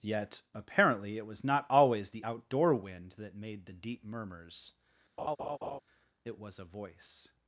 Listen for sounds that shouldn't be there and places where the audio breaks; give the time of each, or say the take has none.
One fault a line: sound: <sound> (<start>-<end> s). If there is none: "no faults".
sound: laugh (5.2-5.8 s)